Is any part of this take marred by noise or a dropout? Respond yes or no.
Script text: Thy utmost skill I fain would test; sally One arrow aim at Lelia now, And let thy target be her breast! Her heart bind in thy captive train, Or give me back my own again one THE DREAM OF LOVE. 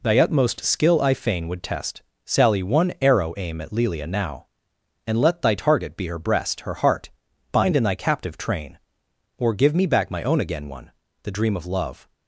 no